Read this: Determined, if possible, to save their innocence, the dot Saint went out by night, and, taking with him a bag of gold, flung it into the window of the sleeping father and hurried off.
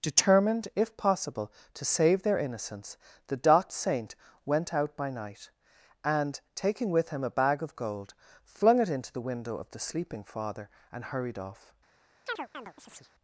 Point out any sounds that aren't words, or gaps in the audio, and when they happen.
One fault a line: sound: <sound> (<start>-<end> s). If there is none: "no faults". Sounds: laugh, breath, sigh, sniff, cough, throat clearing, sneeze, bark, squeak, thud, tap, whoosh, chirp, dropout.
sound: chirp (12.3-13.1 s)